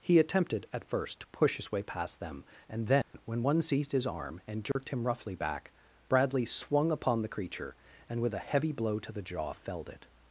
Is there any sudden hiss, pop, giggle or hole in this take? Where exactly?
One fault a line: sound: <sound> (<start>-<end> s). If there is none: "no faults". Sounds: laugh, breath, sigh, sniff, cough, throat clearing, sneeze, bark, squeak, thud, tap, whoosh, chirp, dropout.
sound: dropout (3.0-3.1 s)
sound: dropout (4.7-4.8 s)